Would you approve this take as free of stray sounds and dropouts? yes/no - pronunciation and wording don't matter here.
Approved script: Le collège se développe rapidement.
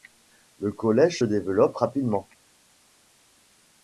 yes